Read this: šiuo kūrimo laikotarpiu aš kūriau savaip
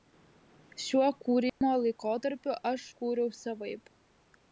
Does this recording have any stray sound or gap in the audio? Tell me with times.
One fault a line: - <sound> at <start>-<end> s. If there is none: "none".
- dropout at 1.5-1.6 s